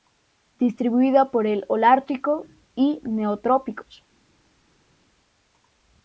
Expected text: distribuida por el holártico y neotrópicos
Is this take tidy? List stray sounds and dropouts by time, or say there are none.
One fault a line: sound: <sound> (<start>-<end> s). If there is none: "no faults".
no faults